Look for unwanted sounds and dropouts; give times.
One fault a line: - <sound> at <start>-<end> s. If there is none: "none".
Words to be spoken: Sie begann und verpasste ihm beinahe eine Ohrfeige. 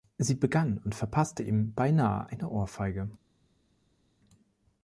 none